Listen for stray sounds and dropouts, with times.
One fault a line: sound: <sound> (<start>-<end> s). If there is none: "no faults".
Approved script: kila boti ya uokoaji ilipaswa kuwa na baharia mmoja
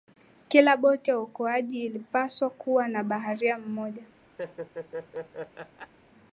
sound: laugh (4.4-5.9 s)